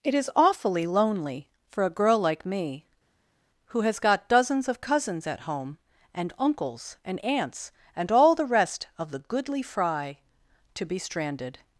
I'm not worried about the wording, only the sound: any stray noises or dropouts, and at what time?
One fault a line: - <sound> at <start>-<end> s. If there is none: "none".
none